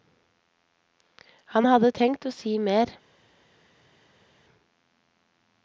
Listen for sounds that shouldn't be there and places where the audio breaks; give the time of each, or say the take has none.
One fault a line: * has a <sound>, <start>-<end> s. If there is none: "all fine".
all fine